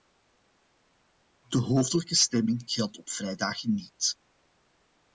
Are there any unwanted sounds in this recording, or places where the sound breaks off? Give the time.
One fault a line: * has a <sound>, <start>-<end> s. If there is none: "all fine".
all fine